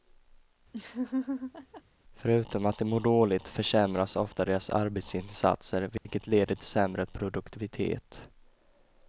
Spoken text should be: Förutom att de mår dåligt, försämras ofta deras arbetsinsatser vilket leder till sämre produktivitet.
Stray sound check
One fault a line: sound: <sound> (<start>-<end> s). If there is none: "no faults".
sound: laugh (0.7-1.8 s)
sound: dropout (6.0-6.1 s)